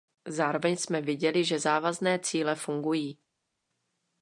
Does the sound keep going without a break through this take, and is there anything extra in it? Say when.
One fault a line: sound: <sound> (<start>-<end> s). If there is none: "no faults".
no faults